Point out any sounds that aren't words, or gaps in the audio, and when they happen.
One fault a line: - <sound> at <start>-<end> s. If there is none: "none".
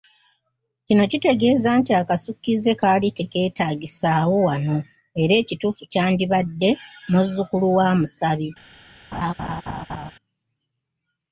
- laugh at 9.1-10.1 s